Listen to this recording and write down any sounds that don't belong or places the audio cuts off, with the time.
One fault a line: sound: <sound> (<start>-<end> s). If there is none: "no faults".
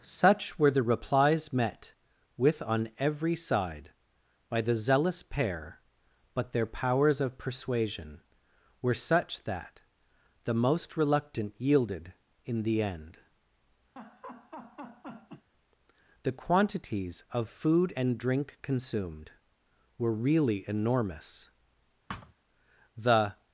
sound: laugh (14.0-15.5 s)
sound: thud (22.1-22.3 s)